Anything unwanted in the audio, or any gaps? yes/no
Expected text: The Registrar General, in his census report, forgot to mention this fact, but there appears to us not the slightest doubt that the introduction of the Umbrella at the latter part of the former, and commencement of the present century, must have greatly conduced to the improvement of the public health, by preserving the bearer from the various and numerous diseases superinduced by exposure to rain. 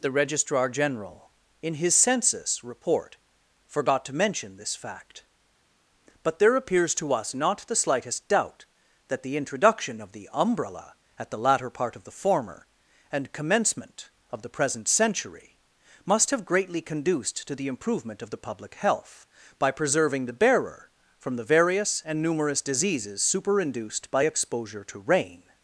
no